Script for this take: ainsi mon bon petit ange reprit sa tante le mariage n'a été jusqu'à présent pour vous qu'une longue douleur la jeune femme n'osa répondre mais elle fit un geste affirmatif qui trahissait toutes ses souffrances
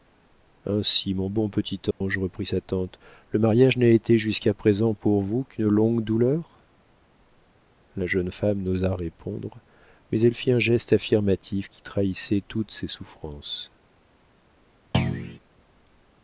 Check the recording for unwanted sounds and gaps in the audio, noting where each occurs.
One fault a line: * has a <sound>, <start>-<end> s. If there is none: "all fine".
* has a dropout, 1.9-2.0 s
* has a thud, 14.9-15.4 s